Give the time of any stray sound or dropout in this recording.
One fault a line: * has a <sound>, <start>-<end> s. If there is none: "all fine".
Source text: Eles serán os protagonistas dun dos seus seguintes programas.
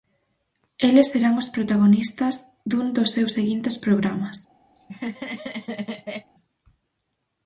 * has a laugh, 4.7-6.3 s